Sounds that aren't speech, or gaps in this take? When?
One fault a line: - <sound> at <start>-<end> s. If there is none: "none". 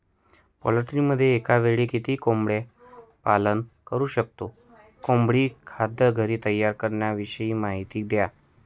none